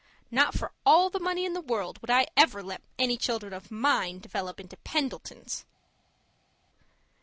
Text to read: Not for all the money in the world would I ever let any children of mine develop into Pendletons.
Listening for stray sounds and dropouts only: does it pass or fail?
pass